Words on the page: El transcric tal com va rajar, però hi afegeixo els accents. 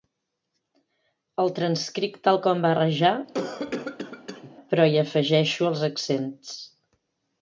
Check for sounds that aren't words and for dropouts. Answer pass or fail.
fail